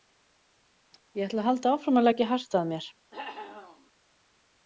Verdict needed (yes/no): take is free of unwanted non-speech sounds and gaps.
no